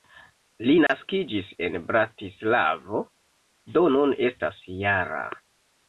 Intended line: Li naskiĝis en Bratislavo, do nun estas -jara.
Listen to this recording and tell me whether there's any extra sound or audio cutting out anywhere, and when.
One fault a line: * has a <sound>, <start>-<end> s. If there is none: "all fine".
* has a dropout, 0.9-0.9 s